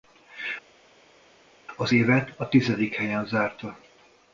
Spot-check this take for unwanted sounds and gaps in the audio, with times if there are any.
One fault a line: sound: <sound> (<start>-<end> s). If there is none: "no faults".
no faults